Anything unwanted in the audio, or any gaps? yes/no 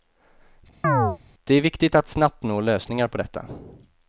yes